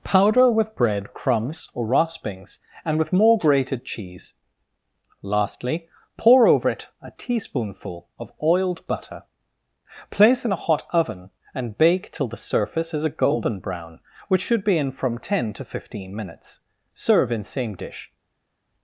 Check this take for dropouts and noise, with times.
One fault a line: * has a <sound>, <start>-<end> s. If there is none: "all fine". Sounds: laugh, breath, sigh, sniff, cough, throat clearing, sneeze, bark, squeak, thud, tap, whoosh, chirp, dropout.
all fine